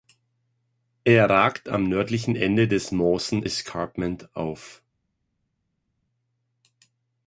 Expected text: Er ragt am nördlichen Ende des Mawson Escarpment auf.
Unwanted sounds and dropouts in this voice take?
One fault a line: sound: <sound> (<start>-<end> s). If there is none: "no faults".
no faults